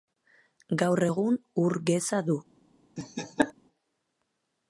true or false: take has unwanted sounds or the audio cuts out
true